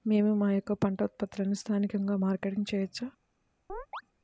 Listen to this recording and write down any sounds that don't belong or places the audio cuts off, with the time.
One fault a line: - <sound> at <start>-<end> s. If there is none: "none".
- chirp at 3.7-4.0 s